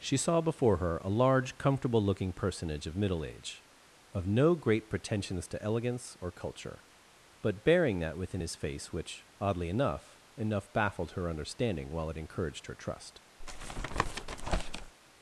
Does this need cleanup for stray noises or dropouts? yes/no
yes